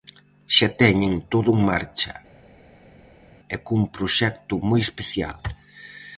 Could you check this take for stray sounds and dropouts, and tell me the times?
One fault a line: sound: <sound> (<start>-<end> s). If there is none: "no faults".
no faults